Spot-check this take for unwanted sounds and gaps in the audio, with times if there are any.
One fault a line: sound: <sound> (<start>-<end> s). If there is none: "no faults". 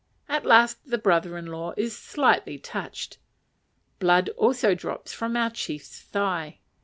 no faults